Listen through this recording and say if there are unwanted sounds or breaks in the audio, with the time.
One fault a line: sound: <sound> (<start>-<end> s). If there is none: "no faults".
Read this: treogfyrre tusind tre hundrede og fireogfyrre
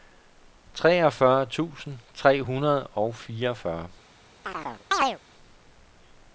sound: chirp (4.4-5.2 s)